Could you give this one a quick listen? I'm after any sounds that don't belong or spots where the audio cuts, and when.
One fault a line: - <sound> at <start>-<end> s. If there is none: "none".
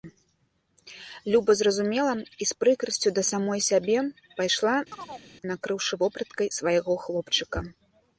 - chirp at 4.9-5.3 s